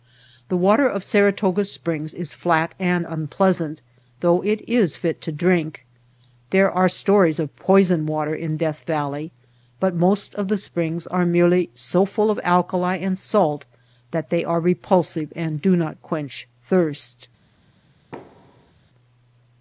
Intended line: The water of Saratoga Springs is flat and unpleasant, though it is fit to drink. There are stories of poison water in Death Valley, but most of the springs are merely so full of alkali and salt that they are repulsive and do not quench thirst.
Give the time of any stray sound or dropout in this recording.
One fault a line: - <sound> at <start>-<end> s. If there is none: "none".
- thud at 18.1-18.7 s